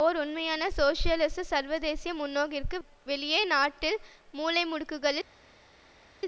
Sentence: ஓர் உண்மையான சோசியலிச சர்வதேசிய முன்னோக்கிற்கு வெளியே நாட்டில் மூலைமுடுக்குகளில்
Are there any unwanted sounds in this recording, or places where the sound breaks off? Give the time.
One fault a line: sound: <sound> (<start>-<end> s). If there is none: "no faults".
no faults